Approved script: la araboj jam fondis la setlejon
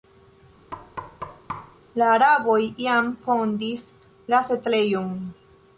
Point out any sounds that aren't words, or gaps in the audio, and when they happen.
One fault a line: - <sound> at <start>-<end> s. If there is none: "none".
- thud at 0.7-1.8 s